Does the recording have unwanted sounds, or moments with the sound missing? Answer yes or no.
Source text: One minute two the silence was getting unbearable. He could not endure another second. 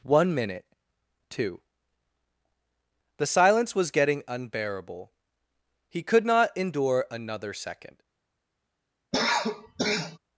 yes